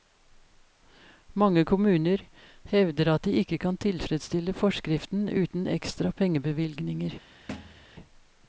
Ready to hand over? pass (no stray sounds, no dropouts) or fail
fail